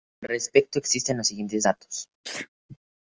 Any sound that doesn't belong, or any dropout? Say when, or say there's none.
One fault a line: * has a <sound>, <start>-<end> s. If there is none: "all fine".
* has a sneeze, 2.2-2.5 s